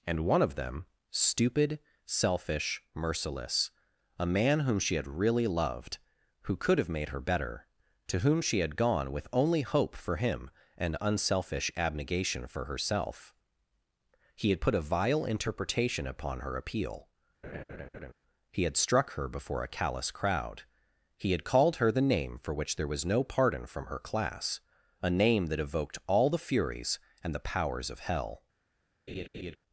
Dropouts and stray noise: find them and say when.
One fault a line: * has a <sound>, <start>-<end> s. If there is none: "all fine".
* has a laugh, 17.4-18.1 s
* has a laugh, 29.1-29.6 s